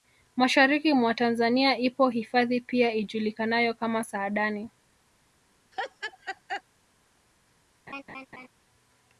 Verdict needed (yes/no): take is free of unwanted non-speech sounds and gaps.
no